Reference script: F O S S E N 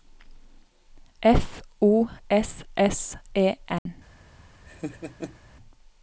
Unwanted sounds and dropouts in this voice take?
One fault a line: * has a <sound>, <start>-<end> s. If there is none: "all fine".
* has a dropout, 3.8-3.9 s
* has a laugh, 4.7-5.4 s